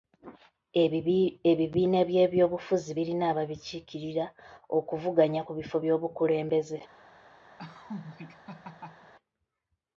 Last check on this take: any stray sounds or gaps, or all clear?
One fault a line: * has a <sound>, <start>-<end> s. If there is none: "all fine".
* has a laugh, 7.6-9.1 s